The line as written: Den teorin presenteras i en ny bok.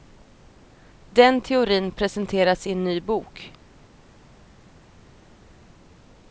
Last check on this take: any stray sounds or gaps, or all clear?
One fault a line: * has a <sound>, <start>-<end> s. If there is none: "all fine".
all fine